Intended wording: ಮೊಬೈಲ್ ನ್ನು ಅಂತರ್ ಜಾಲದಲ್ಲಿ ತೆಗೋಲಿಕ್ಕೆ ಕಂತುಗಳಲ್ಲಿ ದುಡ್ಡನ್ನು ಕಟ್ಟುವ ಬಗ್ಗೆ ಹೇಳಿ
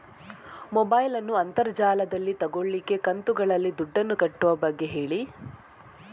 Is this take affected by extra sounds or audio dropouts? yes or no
no